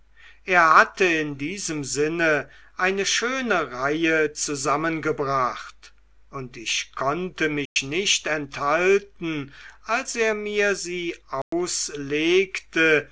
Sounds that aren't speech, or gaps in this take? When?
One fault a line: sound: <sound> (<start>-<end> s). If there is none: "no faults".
sound: dropout (7.7-7.8 s)
sound: dropout (11.4-11.5 s)